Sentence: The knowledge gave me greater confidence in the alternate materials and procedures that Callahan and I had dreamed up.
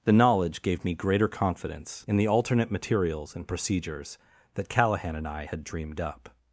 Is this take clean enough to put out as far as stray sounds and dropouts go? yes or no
yes